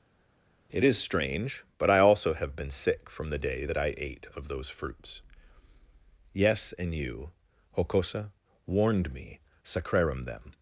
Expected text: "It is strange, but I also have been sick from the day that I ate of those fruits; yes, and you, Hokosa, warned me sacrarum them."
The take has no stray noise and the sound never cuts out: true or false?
true